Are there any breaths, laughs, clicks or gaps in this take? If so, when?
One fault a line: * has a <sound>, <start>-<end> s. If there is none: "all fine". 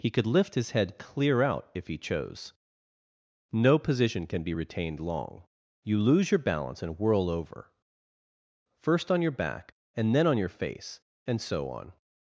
all fine